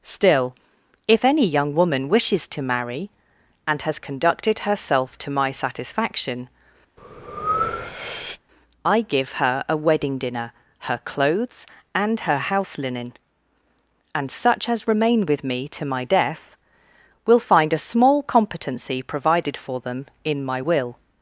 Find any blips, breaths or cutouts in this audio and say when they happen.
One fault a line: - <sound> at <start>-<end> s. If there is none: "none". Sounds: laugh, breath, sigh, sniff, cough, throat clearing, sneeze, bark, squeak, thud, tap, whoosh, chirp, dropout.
- breath at 7.0-8.4 s